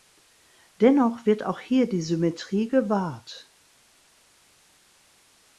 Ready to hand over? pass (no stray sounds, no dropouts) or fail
pass